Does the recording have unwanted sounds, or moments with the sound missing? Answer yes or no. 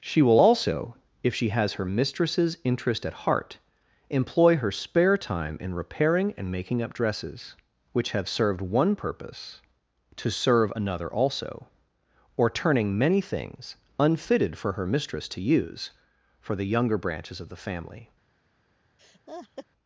yes